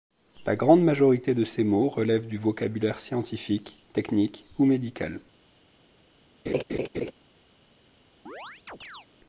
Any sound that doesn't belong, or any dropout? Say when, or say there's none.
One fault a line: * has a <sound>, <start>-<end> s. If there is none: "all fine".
* has a laugh, 6.5-7.1 s
* has a chirp, 8.3-9.1 s